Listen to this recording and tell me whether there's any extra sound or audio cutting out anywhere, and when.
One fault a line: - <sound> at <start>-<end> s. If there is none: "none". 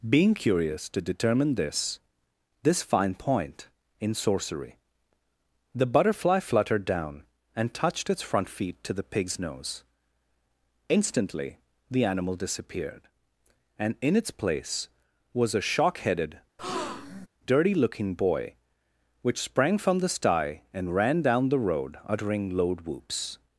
- breath at 16.6-17.3 s